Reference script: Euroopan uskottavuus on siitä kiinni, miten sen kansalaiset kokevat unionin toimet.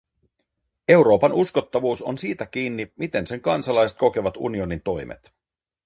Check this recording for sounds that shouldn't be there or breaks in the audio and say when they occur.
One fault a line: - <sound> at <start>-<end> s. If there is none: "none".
none